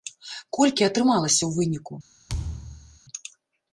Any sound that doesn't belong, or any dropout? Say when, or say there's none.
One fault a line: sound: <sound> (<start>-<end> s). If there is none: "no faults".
sound: thud (2.3-3.0 s)